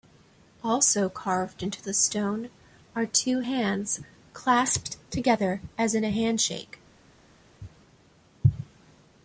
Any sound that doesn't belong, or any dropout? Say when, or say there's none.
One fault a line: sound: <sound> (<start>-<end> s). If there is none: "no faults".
no faults